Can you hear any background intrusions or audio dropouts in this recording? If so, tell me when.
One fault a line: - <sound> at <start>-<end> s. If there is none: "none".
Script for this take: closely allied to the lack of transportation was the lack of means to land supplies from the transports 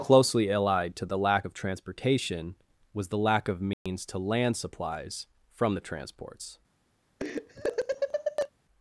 - dropout at 3.7-3.9 s
- laugh at 7.2-8.5 s